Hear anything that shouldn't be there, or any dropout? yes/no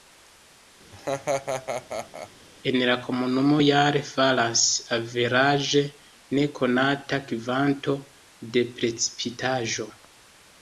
yes